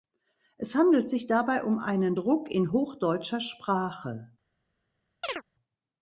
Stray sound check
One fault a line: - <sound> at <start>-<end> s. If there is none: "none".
- chirp at 5.2-5.4 s